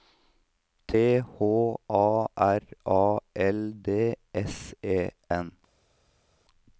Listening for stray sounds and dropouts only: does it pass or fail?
pass